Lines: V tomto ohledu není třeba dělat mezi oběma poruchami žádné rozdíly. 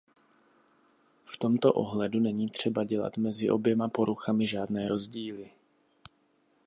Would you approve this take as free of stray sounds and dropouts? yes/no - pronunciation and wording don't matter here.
yes